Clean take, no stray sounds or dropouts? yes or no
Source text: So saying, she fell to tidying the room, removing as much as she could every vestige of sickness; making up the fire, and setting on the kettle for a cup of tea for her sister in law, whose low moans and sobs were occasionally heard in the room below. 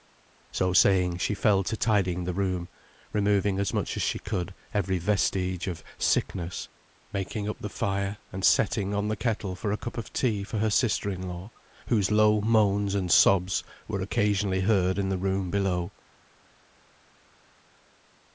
yes